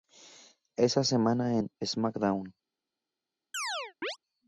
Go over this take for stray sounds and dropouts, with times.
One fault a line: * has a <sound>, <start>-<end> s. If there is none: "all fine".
* has a chirp, 3.5-4.2 s